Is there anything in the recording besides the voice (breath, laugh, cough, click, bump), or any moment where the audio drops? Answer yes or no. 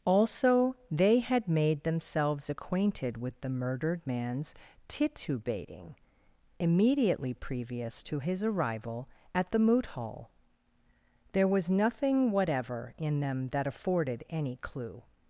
no